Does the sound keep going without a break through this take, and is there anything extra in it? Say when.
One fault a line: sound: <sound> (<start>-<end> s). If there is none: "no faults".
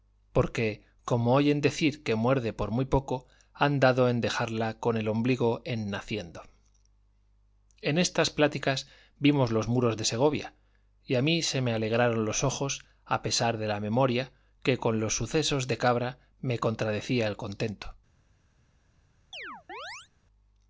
sound: chirp (19.3-20.1 s)